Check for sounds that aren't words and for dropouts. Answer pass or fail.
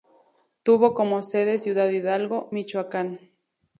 pass